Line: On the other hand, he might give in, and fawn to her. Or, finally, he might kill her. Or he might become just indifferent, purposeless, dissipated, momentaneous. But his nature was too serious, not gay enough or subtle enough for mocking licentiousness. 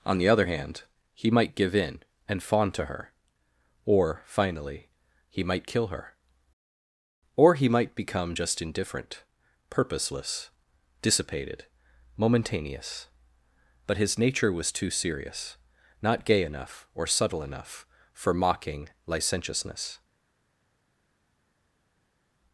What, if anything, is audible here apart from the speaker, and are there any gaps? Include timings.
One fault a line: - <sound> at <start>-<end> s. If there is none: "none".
none